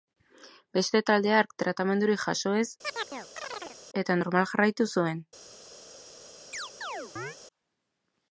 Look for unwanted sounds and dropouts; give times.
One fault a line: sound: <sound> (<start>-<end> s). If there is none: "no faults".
sound: chirp (2.8-3.8 s)
sound: chirp (6.5-7.4 s)